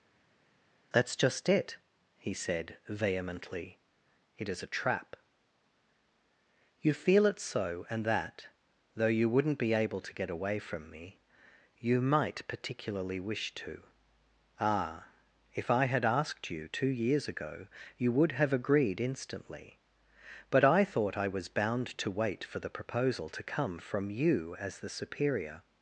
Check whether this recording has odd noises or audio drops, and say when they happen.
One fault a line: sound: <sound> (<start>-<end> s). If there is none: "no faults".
no faults